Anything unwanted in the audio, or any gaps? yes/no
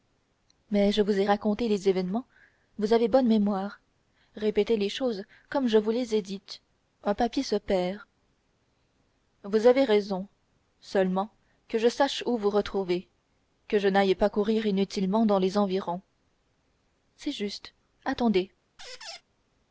yes